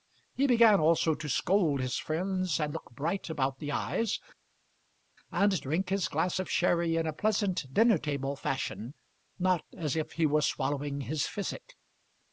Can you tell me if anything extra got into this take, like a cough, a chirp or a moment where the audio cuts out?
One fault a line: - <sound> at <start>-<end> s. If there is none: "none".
none